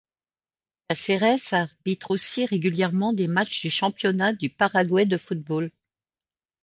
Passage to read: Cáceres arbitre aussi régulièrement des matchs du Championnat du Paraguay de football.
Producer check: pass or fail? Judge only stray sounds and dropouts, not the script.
pass